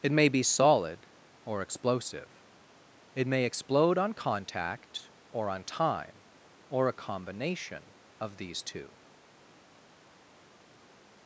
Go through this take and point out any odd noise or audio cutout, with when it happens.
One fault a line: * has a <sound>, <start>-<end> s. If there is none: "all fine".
all fine